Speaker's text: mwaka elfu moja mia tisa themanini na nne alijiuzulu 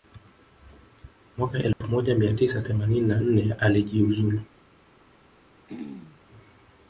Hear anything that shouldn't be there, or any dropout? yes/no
yes